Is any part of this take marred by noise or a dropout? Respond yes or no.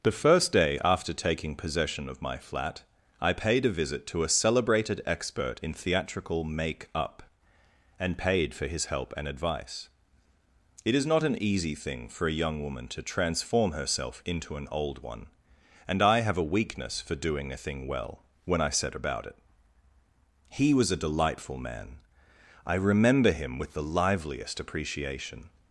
no